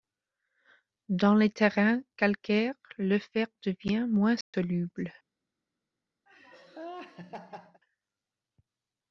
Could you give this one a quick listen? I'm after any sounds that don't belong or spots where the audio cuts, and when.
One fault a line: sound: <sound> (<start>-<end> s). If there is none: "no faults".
sound: dropout (4.4-4.5 s)
sound: laugh (6.3-7.8 s)